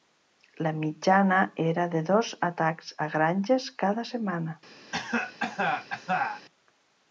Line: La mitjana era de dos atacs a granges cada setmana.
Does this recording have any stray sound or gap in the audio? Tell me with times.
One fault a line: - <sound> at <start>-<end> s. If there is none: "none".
- cough at 4.9-6.5 s